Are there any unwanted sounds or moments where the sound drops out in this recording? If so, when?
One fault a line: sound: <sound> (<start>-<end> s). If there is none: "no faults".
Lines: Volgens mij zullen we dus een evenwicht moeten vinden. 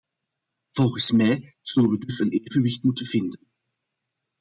no faults